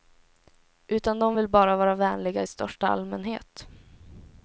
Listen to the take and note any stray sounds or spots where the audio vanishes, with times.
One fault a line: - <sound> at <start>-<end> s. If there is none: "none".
none